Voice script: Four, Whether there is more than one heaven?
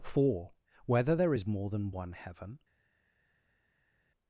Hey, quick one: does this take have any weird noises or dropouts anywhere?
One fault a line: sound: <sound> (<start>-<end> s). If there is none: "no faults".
no faults